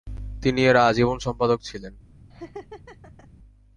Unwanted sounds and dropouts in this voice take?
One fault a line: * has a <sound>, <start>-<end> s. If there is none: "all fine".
* has a laugh, 2.3-3.3 s